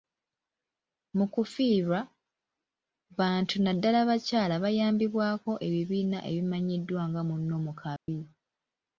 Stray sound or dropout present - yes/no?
yes